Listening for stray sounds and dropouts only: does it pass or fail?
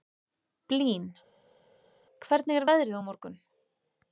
pass